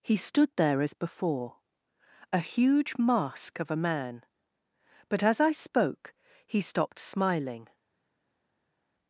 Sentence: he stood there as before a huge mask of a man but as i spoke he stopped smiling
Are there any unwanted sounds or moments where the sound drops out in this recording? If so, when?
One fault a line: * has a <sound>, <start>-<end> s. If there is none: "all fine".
all fine